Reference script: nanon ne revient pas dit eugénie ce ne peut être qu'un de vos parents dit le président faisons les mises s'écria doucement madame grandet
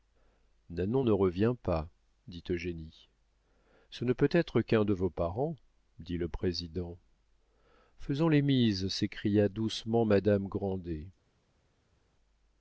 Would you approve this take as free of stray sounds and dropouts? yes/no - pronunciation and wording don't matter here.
yes